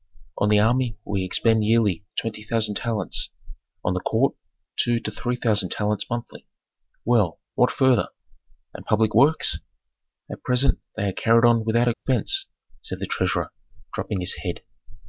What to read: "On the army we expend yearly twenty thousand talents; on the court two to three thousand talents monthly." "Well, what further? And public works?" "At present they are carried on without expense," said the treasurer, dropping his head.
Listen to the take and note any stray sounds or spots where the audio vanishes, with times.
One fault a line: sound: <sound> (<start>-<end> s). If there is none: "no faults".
sound: dropout (11.9-12.1 s)